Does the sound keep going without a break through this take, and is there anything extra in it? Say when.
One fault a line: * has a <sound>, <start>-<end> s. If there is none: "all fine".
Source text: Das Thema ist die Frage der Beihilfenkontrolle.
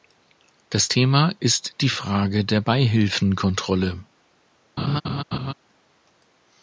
* has a laugh, 4.8-5.5 s